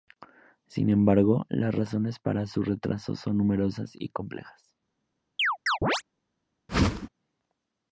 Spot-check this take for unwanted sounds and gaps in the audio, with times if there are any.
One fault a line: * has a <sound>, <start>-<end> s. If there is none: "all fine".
* has a chirp, 5.4-6.0 s
* has a whoosh, 6.7-7.1 s